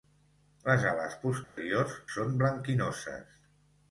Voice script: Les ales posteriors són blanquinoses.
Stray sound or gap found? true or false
true